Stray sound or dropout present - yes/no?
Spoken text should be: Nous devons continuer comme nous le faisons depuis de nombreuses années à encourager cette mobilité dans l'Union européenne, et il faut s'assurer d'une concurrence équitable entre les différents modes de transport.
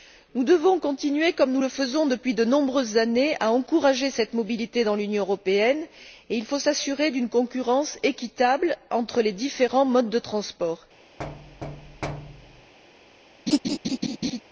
yes